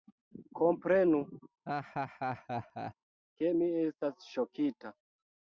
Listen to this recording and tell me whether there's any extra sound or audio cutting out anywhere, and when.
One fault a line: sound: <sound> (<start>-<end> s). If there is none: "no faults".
sound: laugh (1.7-2.9 s)